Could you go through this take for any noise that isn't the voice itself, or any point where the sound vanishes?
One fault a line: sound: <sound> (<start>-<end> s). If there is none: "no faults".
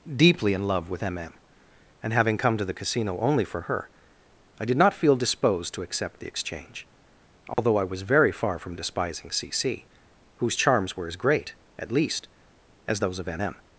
sound: dropout (7.5-7.6 s)